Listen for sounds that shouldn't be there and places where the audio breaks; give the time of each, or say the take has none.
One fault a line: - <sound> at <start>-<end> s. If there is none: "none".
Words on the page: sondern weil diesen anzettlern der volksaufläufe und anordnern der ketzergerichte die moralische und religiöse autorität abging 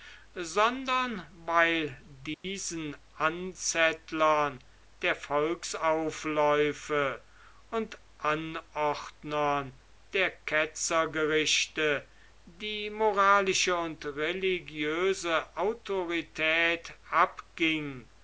- dropout at 2.3-2.4 s